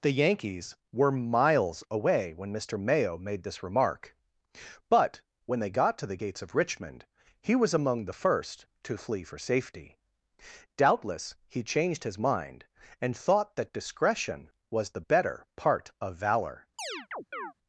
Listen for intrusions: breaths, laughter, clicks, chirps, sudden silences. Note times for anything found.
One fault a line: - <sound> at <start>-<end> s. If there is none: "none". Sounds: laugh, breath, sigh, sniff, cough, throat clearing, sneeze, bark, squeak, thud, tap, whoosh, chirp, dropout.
- chirp at 16.8-17.5 s